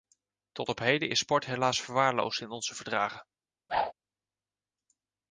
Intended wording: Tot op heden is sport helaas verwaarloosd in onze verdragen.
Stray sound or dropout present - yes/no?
yes